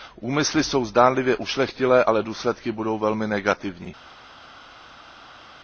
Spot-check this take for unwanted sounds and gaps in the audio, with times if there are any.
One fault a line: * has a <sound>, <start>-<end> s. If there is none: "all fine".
all fine